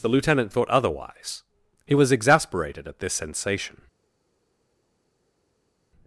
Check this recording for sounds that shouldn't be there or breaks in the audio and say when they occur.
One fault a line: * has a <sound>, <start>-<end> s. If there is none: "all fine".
all fine